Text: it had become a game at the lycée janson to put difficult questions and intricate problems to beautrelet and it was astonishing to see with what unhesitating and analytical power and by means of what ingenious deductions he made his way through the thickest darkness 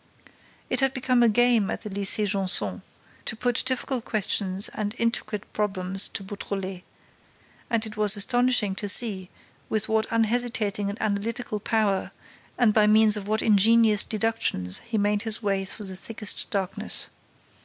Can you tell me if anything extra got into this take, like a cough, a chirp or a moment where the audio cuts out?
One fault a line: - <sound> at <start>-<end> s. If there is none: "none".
none